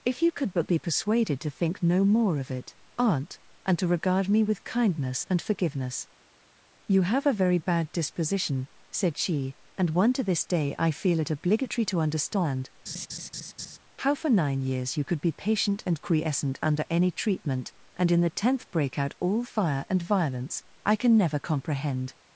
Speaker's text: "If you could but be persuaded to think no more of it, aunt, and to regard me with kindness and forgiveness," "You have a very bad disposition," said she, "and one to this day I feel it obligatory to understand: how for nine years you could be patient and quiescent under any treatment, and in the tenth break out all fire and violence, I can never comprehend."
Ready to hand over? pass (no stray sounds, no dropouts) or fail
fail